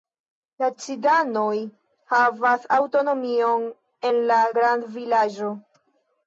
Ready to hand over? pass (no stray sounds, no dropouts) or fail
pass